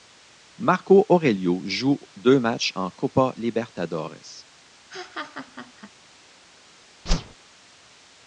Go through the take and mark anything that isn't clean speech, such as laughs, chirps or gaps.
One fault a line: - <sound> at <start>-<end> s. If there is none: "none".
- laugh at 4.9-5.9 s
- whoosh at 7.1-7.3 s